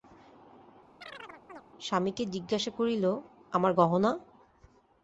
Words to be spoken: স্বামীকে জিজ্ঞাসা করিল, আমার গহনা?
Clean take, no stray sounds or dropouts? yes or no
no